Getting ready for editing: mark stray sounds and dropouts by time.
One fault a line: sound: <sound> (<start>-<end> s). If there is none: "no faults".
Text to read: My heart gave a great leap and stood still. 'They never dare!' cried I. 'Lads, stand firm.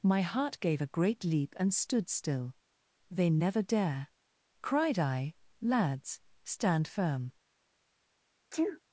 sound: sneeze (8.5-8.8 s)